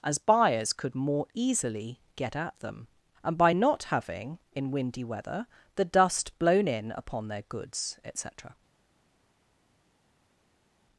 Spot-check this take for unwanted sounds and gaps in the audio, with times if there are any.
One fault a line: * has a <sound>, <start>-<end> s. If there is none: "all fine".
all fine